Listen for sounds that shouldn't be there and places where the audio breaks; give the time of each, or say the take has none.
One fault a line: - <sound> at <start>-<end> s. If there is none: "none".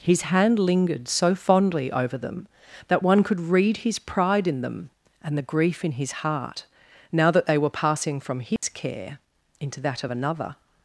- dropout at 8.6-8.6 s